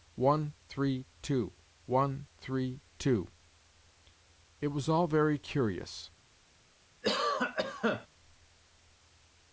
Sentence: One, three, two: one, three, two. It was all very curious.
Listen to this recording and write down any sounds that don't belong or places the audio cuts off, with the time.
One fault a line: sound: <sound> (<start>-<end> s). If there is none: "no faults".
sound: cough (7.0-8.1 s)